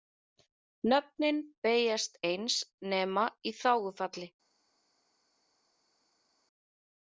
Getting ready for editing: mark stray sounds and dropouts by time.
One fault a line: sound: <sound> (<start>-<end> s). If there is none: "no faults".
no faults